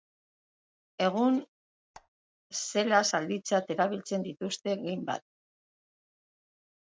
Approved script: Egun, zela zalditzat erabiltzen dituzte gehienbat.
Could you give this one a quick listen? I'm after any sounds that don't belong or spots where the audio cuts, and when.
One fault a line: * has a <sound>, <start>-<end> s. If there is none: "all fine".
* has a squeak, 1.9-2.1 s